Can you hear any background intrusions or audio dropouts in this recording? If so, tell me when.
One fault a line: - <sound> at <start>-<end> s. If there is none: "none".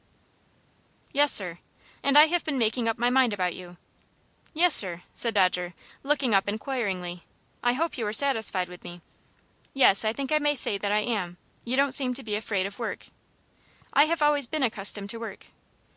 none